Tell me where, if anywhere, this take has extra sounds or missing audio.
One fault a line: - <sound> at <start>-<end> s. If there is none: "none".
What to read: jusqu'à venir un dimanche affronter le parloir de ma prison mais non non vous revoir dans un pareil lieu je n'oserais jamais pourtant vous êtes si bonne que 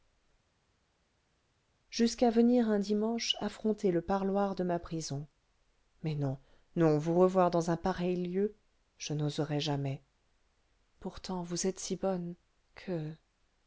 none